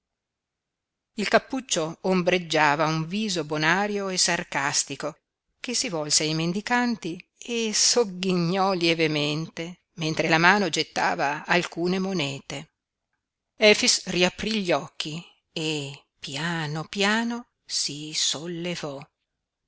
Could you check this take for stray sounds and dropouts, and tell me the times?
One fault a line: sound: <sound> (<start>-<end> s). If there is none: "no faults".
no faults